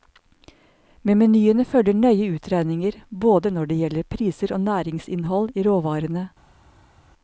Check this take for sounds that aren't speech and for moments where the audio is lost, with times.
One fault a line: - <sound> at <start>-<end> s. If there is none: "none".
none